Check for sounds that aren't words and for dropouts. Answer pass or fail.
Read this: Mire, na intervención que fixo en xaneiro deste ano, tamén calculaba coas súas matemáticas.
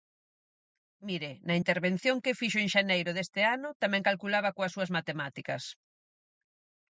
pass